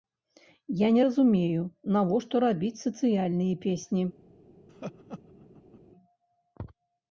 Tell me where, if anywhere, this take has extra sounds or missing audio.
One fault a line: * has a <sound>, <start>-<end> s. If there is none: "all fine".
* has a laugh, 4.7-5.8 s